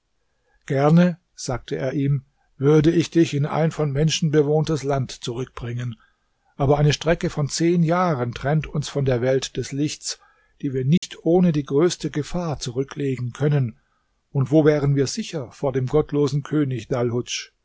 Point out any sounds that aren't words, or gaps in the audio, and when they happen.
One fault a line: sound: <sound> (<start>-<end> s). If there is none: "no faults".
sound: dropout (11.0-11.0 s)